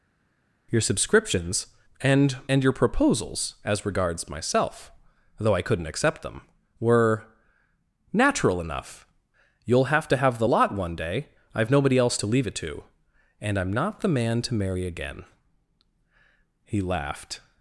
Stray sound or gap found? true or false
false